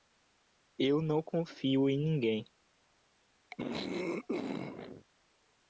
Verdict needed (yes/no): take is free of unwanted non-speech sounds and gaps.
no